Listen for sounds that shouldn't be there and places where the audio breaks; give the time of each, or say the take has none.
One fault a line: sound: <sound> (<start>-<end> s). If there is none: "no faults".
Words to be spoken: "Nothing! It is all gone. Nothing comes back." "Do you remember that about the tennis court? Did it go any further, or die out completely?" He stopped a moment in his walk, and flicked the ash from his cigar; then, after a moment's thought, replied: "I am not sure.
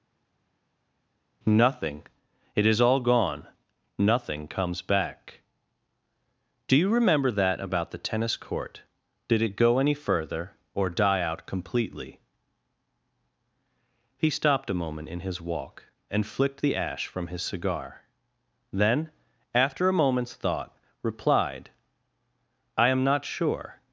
no faults